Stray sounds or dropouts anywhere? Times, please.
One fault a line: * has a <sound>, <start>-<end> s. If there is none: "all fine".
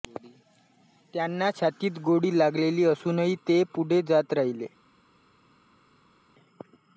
all fine